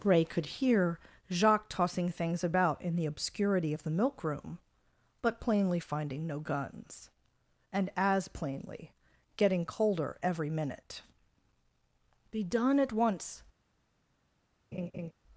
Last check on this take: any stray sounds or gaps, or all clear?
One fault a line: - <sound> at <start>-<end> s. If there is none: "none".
- laugh at 14.7-15.1 s